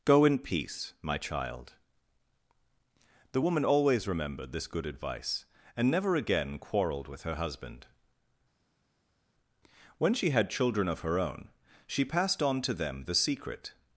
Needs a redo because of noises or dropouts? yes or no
no